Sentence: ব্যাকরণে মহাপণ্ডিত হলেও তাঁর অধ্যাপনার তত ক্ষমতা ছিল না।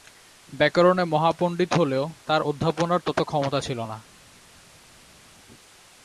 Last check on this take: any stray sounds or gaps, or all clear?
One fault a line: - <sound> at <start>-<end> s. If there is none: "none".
none